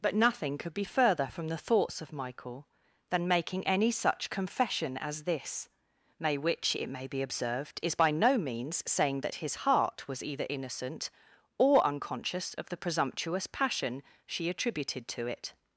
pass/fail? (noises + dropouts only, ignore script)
pass